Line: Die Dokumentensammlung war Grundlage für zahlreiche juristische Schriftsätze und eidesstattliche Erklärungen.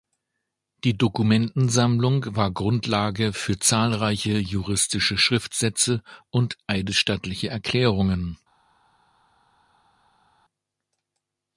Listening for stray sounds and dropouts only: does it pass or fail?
pass